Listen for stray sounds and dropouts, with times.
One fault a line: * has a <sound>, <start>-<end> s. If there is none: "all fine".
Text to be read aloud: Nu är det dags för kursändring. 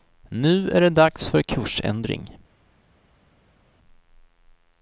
all fine